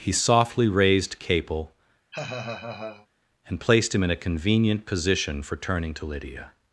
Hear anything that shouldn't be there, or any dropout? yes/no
yes